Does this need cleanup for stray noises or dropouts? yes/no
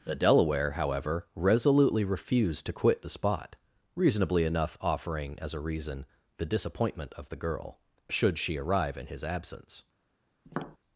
yes